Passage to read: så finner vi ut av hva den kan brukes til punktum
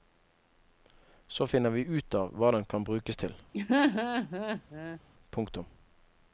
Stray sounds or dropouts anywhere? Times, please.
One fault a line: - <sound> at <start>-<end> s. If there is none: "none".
- laugh at 3.5-5.0 s